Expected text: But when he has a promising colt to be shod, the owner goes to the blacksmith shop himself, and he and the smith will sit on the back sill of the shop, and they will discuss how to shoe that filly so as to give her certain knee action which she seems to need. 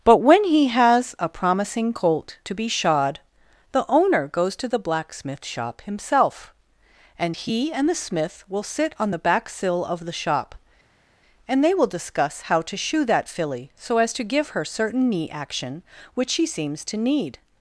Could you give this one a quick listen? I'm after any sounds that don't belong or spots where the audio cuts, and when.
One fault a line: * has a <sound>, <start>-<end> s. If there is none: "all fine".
all fine